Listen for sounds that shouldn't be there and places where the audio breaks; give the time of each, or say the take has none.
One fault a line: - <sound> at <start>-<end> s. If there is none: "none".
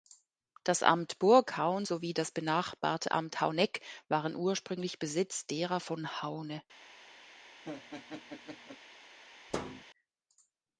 - laugh at 7.6-8.8 s
- thud at 9.5-9.8 s